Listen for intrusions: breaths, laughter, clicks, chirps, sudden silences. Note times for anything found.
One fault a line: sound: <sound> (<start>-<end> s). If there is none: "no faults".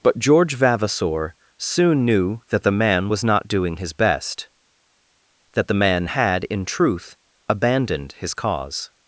no faults